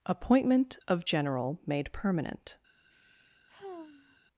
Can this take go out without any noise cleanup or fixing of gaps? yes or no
no